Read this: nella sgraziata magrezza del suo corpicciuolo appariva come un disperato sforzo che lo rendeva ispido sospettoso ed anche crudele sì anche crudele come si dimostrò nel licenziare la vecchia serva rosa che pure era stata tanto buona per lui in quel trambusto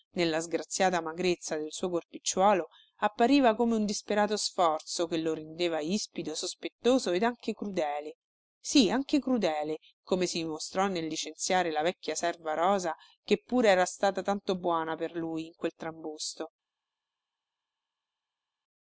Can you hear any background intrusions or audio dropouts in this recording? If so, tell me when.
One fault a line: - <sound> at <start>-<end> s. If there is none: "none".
none